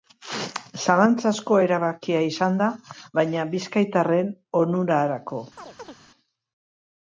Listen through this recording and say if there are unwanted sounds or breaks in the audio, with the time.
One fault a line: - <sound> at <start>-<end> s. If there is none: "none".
- chirp at 5.6-6.0 s